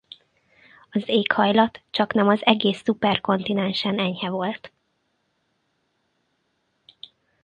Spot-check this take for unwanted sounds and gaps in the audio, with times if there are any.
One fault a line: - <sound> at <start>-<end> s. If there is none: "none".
none